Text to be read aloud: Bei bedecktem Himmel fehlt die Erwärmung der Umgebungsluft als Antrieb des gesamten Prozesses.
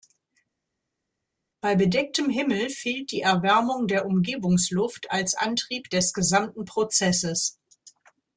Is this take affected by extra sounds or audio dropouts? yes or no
no